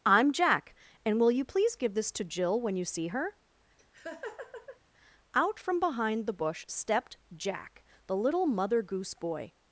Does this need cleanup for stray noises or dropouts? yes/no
yes